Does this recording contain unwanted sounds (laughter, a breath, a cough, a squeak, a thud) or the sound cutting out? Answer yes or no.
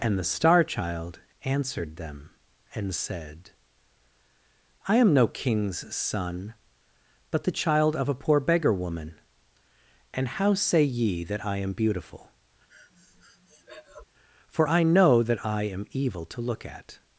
yes